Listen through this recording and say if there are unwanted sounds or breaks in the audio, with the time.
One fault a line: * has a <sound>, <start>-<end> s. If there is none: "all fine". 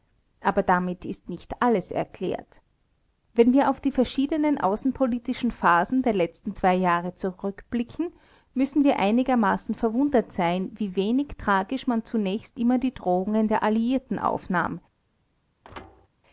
* has a thud, 15.6-16.1 s